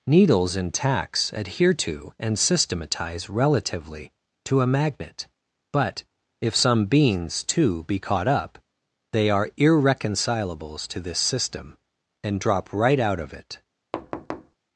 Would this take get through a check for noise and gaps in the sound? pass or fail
fail